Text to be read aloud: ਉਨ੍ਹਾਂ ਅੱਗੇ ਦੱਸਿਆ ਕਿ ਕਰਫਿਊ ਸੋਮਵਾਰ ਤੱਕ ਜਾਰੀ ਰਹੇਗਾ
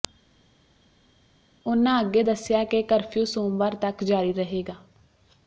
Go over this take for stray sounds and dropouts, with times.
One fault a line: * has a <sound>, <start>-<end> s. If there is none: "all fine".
all fine